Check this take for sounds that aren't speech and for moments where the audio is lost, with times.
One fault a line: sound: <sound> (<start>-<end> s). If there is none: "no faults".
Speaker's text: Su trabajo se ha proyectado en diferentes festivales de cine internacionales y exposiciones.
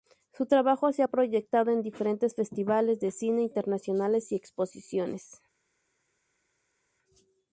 no faults